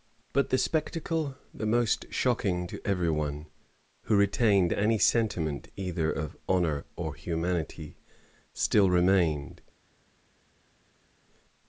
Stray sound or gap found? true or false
false